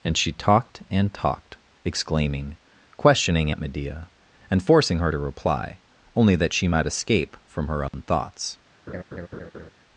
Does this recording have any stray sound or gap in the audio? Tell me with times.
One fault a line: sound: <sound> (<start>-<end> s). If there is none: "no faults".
sound: dropout (7.9-7.9 s)
sound: laugh (8.9-9.7 s)